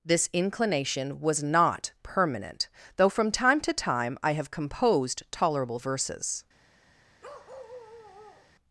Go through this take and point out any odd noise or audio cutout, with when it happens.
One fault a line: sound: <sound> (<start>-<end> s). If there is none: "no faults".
sound: bark (7.2-8.5 s)